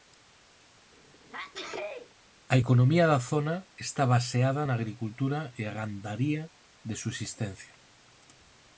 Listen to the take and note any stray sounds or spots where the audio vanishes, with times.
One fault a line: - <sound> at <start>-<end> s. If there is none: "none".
- sneeze at 0.9-2.1 s